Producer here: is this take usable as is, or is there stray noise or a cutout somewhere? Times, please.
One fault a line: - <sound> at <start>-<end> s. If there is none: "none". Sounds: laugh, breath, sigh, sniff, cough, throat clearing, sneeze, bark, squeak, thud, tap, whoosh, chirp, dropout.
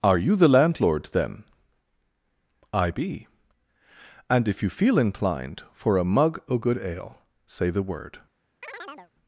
- chirp at 8.6-9.1 s